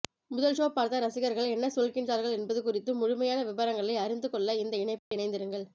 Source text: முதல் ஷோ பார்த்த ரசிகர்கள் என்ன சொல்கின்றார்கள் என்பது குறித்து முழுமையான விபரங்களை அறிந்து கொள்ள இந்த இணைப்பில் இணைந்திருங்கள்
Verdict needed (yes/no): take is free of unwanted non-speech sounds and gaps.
no